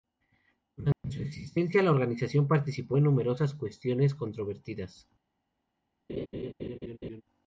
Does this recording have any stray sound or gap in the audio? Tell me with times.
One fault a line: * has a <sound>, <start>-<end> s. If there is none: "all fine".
* has a dropout, 0.9-1.0 s
* has a laugh, 6.1-7.2 s